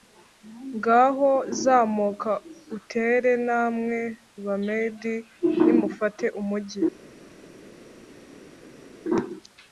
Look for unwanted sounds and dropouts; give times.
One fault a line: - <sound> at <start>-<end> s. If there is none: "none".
none